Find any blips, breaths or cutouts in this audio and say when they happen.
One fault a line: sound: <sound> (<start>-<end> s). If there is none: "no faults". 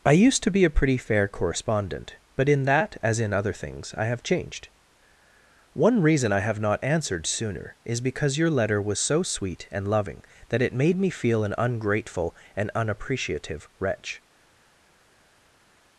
no faults